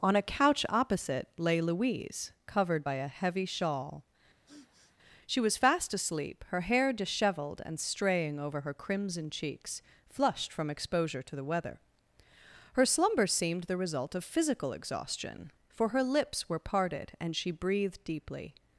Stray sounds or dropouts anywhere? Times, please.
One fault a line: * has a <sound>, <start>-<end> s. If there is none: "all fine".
* has a sniff, 4.5-5.0 s